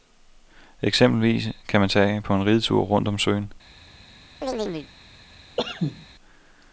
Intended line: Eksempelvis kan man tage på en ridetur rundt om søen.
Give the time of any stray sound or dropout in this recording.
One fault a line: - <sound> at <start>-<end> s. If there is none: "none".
- chirp at 4.4-4.9 s
- cough at 5.6-6.1 s